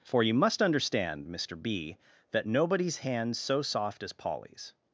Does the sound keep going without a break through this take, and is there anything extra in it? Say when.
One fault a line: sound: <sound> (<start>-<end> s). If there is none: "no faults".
no faults